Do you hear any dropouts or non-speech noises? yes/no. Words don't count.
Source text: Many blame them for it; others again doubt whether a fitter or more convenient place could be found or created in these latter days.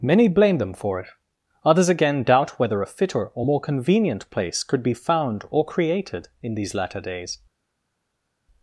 no